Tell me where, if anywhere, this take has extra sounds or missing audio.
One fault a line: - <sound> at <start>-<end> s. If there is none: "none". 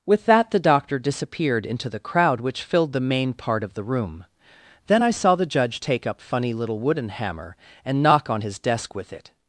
none